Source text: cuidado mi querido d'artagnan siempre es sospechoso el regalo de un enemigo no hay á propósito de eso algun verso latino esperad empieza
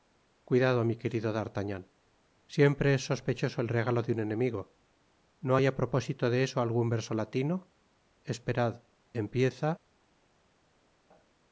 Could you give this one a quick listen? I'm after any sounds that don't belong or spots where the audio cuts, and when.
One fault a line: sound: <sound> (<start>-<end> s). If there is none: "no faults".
no faults